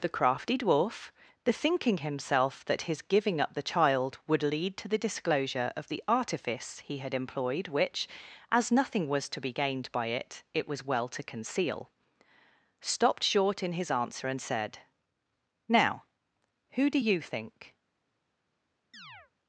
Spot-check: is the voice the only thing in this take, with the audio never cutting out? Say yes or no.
no